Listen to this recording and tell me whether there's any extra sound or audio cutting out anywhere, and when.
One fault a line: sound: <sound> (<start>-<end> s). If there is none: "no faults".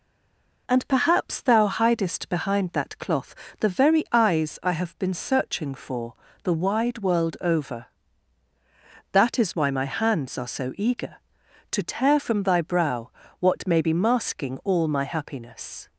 no faults